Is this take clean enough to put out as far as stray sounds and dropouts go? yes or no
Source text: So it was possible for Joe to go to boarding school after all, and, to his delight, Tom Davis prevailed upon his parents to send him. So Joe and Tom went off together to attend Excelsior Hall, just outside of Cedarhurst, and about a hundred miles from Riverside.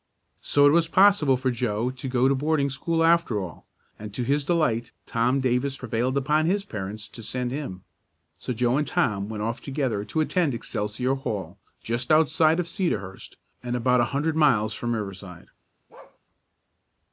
no